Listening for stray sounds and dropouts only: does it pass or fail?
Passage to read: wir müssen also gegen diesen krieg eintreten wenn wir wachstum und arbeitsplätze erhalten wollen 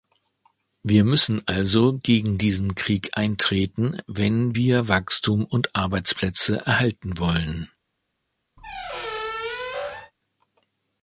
fail